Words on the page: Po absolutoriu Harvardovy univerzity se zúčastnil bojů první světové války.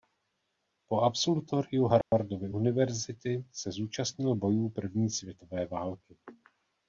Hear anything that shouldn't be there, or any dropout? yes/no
yes